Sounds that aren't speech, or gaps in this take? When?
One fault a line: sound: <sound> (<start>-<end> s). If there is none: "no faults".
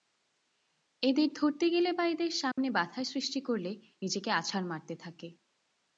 sound: dropout (2.5-2.6 s)